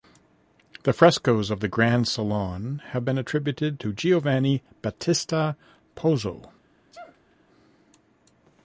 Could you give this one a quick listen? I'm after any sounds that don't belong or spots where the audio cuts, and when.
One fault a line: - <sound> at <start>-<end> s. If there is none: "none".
- sneeze at 6.9-7.4 s